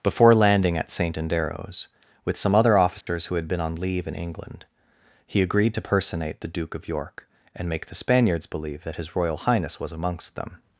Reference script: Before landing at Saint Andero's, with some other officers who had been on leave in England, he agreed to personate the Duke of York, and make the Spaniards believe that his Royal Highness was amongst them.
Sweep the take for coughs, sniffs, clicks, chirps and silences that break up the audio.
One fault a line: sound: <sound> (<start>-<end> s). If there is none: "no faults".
sound: dropout (3.0-3.1 s)